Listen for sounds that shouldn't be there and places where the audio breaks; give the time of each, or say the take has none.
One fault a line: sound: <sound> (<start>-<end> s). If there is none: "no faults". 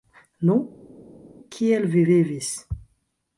no faults